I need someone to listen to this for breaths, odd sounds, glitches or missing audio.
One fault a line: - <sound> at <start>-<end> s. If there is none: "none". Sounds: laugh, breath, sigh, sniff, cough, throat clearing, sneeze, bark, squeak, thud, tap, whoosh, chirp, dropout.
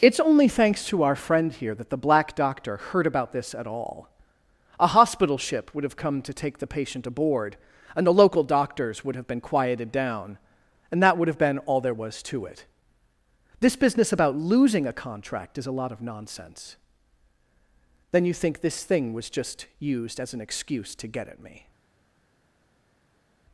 none